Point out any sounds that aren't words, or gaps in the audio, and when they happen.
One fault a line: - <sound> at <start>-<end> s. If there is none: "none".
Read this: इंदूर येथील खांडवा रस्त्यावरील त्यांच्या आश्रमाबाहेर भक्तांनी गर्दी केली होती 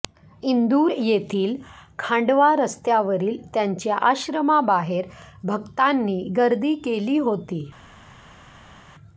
none